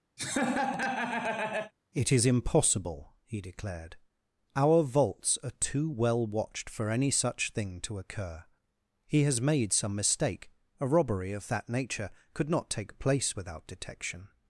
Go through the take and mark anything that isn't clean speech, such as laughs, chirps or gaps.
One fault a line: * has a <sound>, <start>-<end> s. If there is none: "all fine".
* has a laugh, 0.2-1.7 s